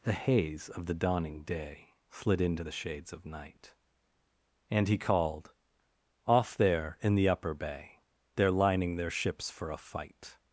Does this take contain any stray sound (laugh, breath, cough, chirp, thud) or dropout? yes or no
no